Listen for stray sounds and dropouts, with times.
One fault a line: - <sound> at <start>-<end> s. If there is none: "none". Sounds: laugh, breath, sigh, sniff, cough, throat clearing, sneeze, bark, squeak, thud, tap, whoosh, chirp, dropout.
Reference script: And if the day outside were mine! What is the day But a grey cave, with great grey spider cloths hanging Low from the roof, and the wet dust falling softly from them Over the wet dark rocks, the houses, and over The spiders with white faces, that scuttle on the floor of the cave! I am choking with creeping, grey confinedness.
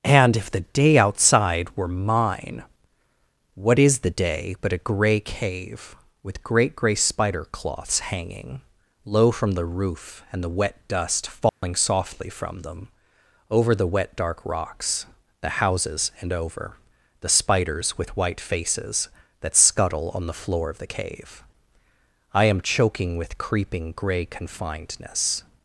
- dropout at 11.5-11.6 s